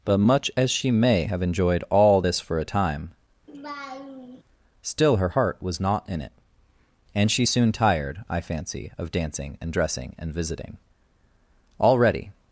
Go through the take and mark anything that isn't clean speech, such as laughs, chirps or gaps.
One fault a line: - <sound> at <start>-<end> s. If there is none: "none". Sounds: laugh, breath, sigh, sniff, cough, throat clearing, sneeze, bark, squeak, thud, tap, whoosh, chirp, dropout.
- laugh at 3.5-4.4 s